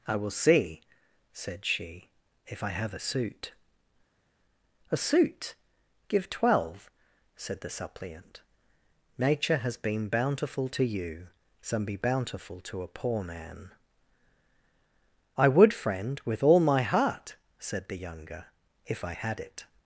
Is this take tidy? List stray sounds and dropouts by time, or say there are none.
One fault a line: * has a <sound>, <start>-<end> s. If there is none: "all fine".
all fine